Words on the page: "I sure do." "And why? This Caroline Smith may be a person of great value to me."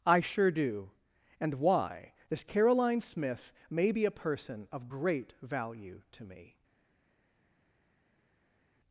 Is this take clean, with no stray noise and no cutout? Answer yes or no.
yes